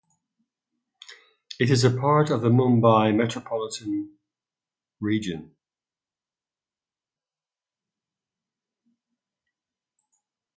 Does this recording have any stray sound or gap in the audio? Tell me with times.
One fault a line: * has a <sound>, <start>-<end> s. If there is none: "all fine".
all fine